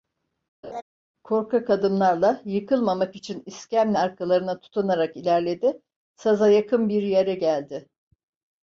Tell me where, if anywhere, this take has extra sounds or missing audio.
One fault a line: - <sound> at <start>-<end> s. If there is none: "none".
- laugh at 0.6-0.8 s